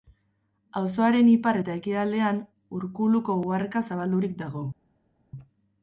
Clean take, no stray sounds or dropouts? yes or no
yes